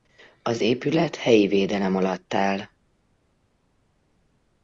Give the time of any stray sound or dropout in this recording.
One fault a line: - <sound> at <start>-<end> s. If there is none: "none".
none